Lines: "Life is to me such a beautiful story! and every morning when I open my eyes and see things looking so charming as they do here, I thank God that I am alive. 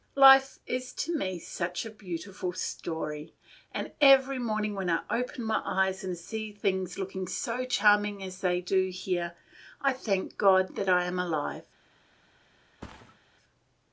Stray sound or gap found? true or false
true